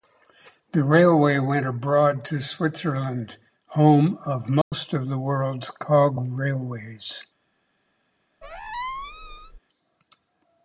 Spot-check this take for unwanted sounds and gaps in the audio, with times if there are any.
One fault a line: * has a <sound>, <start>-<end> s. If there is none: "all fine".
* has a dropout, 4.6-4.7 s
* has a squeak, 8.4-9.6 s